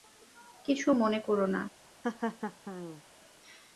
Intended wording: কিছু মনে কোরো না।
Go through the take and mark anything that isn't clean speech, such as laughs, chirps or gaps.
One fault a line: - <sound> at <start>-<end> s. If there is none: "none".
- laugh at 2.0-3.0 s